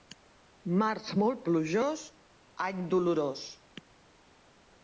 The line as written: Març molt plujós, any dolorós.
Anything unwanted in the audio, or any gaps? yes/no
no